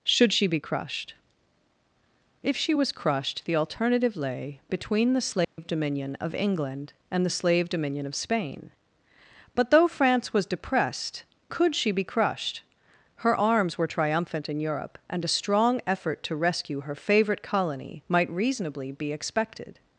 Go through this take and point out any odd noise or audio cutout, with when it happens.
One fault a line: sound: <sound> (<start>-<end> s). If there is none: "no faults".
sound: dropout (5.4-5.6 s)